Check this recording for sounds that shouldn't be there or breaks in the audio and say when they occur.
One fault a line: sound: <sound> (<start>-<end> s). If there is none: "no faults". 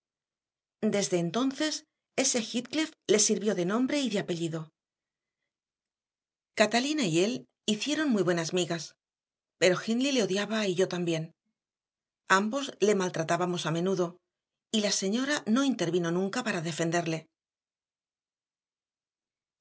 no faults